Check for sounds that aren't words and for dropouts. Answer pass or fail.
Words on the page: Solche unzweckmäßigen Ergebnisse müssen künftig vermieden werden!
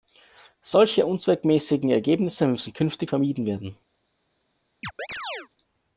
fail